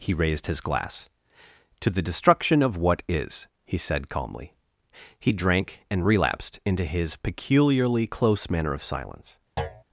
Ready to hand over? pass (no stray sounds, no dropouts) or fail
fail